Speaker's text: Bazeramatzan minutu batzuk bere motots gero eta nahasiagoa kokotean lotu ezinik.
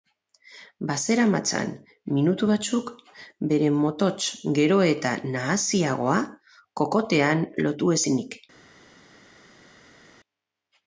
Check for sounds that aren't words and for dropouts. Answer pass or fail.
pass